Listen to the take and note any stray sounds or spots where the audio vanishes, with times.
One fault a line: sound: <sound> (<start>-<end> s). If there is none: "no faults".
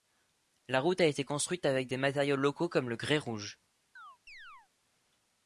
sound: chirp (4.0-4.7 s)